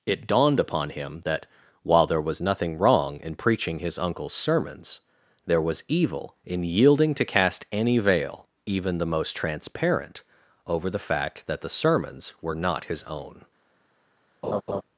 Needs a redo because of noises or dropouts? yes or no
yes